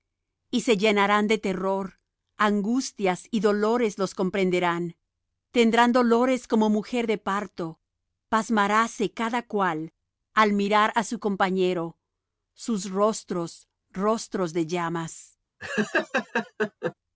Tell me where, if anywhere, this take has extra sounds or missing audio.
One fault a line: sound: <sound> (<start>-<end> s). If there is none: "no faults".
sound: laugh (15.6-16.9 s)